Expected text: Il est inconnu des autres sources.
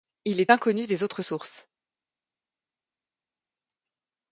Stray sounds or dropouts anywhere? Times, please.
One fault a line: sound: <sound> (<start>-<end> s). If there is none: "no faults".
no faults